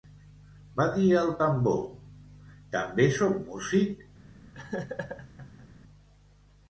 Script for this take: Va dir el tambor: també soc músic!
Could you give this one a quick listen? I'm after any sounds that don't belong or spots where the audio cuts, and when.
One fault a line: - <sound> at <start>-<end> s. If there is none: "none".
- laugh at 4.5-5.7 s